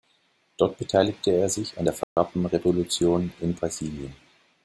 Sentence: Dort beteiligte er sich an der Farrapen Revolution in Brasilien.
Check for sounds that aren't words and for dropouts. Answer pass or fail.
fail